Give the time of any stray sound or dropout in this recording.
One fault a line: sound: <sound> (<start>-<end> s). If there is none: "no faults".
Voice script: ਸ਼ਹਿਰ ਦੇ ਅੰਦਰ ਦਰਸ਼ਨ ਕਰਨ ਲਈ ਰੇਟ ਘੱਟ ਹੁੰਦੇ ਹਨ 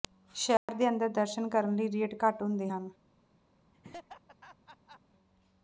sound: dropout (0.6-0.7 s)
sound: laugh (3.7-5.0 s)